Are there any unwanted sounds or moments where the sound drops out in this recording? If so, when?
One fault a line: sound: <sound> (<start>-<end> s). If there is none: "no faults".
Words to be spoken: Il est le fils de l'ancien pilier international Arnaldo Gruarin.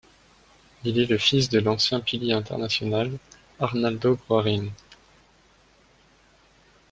no faults